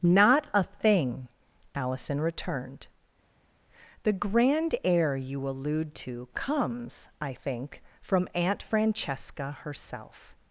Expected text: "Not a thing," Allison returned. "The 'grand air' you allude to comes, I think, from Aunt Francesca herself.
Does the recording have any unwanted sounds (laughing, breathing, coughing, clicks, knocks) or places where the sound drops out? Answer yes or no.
no